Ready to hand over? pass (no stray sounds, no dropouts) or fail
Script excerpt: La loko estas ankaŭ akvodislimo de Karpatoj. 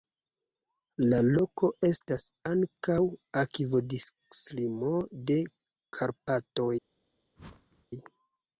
fail